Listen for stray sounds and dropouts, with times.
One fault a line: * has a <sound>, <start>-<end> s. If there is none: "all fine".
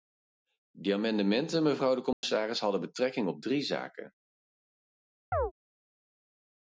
* has a dropout, 2.1-2.2 s
* has a chirp, 5.3-5.5 s